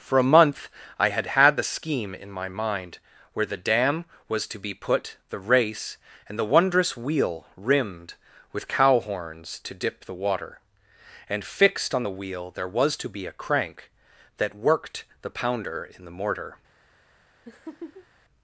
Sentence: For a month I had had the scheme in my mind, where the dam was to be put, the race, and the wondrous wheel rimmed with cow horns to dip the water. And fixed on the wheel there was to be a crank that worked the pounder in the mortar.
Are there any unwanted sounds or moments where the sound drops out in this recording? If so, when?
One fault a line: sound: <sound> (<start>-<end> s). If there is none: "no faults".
sound: laugh (17.4-18.1 s)